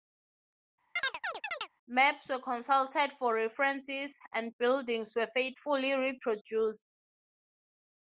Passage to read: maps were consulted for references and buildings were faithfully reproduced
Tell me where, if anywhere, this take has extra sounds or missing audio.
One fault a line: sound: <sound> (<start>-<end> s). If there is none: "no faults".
sound: chirp (1.0-1.7 s)